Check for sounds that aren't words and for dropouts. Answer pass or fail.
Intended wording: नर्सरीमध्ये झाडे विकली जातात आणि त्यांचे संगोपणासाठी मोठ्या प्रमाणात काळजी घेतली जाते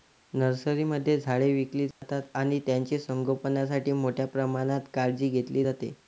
fail